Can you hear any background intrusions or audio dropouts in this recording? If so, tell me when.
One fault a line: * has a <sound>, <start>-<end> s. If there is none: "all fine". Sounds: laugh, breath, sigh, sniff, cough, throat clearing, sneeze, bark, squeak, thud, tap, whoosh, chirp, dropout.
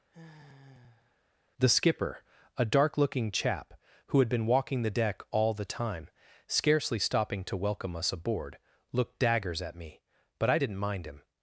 * has a sigh, 0.1-1.2 s